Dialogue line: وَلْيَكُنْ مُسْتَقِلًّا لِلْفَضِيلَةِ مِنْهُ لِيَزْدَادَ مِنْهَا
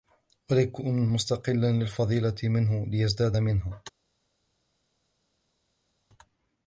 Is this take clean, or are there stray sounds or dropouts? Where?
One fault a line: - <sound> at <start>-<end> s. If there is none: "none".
none